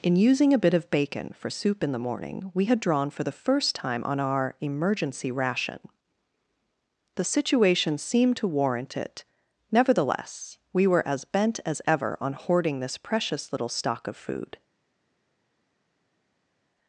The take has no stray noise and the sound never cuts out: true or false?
true